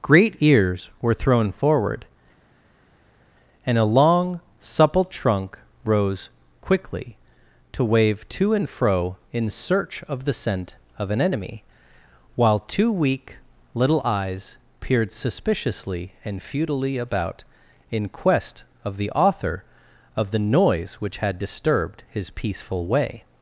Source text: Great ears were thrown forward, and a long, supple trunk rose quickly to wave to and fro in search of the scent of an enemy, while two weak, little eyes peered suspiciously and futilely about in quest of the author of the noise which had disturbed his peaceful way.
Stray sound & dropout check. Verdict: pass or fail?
pass